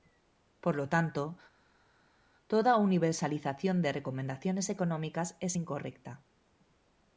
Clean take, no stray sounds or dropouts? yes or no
yes